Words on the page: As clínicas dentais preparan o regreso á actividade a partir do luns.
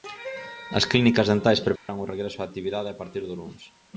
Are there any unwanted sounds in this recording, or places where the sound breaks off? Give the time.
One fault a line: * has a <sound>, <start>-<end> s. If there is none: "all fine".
* has a dropout, 1.8-1.9 s